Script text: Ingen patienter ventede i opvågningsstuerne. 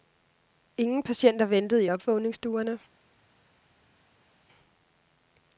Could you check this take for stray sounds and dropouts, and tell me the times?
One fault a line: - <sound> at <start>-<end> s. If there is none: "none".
none